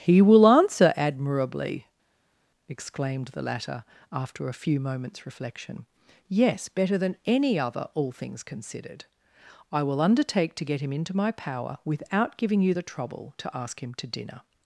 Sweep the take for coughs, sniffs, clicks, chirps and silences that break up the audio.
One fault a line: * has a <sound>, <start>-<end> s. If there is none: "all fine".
all fine